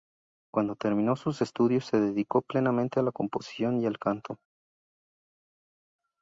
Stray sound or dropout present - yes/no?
no